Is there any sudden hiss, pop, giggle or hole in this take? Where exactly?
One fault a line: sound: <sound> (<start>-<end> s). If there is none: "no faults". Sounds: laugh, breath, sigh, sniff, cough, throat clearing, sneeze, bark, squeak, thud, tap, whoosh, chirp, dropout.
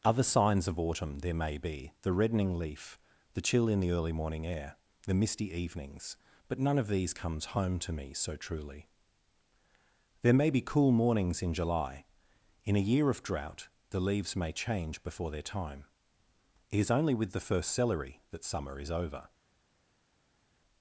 no faults